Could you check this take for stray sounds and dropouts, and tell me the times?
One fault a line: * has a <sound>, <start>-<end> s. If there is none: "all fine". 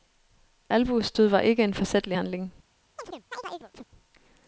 * has a chirp, 3.0-3.9 s